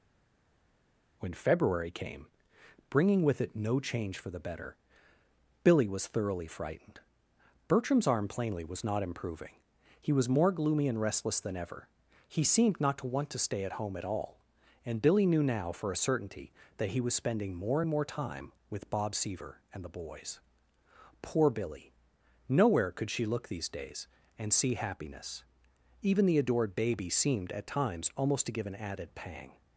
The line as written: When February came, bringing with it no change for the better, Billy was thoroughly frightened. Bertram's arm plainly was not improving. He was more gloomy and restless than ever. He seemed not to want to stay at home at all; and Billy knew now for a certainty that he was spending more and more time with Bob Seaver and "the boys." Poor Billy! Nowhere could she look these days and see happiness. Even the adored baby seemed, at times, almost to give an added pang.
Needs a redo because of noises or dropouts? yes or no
no